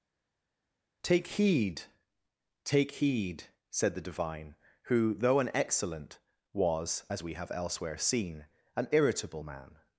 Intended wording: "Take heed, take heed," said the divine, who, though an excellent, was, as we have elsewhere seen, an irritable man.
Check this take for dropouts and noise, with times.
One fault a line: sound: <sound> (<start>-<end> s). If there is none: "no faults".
no faults